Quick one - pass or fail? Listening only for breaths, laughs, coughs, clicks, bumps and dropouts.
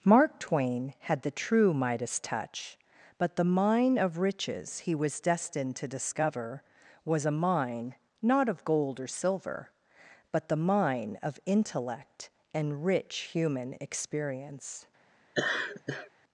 fail